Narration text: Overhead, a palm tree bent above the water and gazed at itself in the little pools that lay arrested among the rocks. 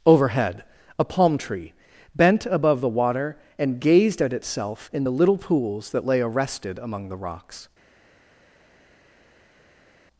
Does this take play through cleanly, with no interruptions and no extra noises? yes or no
yes